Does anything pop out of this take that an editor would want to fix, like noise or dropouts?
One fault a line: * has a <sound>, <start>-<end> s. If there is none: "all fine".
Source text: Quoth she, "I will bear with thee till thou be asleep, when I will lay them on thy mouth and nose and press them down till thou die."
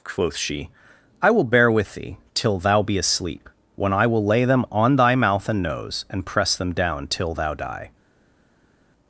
all fine